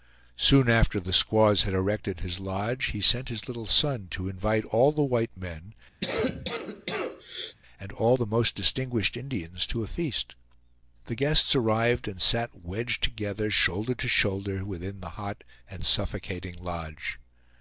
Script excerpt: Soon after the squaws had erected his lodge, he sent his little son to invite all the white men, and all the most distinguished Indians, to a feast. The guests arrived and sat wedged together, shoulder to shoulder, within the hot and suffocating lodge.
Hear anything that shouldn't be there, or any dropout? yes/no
yes